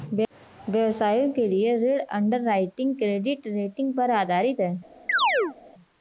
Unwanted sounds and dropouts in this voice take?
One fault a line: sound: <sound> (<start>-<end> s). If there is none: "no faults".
sound: chirp (5.1-5.6 s)